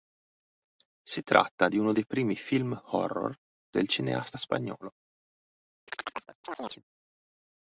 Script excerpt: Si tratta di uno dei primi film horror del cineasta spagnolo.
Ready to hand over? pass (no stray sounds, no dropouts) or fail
fail